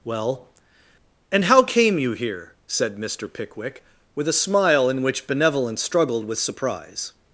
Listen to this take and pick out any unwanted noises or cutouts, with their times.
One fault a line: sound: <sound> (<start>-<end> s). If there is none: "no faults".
no faults